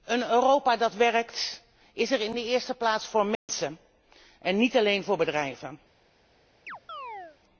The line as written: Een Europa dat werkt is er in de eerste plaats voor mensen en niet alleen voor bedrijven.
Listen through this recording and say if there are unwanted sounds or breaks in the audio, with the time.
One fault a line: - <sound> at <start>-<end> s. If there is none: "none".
- dropout at 3.4-3.5 s
- chirp at 6.7-7.4 s